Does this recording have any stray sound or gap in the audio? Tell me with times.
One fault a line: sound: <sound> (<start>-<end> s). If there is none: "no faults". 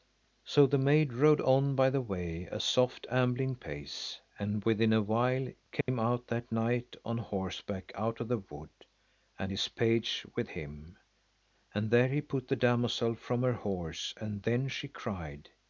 sound: dropout (5.8-5.9 s)